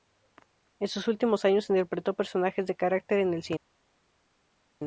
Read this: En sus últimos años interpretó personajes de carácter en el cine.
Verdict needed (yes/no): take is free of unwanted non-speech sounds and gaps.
yes